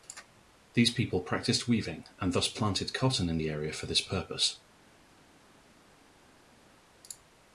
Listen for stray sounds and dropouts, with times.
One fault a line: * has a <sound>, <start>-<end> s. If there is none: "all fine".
all fine